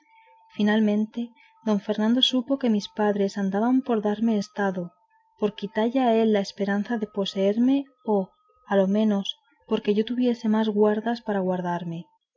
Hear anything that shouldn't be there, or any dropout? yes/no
no